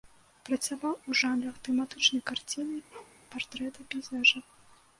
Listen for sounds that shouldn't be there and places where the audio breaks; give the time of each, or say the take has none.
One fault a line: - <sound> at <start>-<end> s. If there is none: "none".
- bark at 2.9-3.2 s